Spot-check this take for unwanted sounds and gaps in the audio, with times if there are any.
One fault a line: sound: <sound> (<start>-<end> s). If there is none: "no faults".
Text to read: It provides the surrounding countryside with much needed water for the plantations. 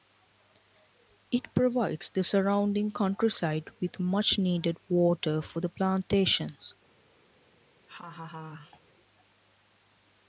sound: laugh (7.9-8.8 s)